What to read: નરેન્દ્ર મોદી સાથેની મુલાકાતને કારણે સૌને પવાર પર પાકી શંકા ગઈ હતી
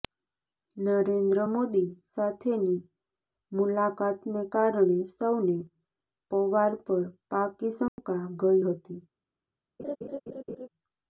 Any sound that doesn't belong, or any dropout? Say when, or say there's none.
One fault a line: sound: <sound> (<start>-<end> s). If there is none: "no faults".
sound: dropout (7.9-8.0 s)
sound: laugh (9.8-10.7 s)